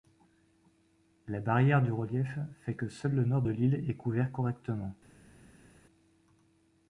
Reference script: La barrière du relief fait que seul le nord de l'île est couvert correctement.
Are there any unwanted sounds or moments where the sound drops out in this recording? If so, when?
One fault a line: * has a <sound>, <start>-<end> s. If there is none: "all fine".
all fine